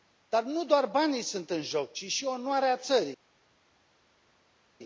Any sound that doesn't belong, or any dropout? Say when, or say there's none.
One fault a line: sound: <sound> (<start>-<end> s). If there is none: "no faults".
no faults